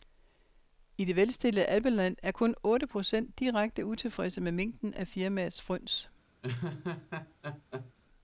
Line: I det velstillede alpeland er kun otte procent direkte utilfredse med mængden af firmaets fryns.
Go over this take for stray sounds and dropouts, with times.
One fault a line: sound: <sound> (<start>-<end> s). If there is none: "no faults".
sound: laugh (6.4-7.9 s)